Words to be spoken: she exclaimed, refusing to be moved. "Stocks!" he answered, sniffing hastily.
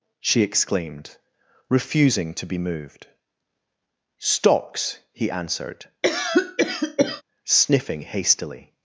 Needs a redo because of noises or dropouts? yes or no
yes